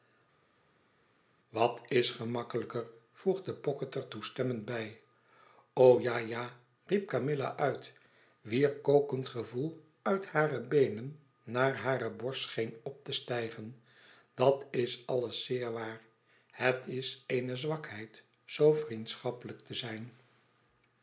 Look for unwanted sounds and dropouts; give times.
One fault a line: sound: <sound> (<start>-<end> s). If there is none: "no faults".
no faults